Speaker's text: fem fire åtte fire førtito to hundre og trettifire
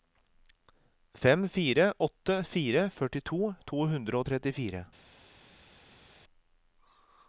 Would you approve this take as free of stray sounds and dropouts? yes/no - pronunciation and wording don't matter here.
yes